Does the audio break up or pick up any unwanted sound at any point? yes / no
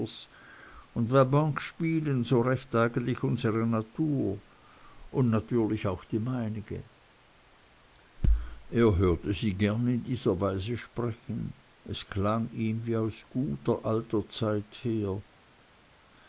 no